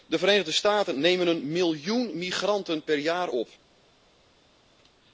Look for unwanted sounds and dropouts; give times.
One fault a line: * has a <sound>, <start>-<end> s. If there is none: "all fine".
all fine